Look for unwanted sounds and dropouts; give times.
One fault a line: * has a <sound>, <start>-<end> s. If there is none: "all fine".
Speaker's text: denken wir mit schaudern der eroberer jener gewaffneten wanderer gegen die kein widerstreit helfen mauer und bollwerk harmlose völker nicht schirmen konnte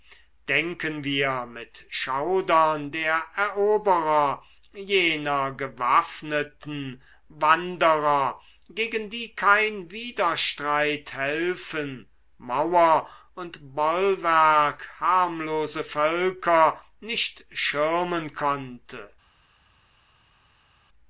all fine